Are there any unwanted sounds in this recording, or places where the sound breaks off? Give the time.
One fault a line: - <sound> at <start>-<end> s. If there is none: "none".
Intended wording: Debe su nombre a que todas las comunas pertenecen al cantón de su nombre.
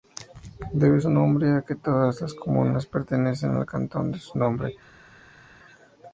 none